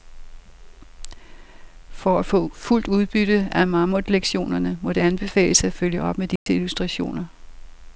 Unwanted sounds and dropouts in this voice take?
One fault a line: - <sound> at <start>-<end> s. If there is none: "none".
- dropout at 6.4-6.5 s